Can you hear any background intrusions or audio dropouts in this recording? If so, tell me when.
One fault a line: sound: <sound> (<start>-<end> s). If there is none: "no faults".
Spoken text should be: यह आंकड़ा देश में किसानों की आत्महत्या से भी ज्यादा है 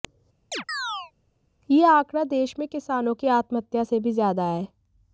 sound: chirp (0.5-1.1 s)